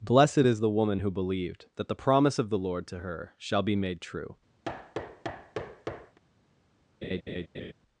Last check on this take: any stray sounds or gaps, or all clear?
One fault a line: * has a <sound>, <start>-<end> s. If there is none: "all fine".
* has a thud, 4.6-6.2 s
* has a laugh, 7.0-7.7 s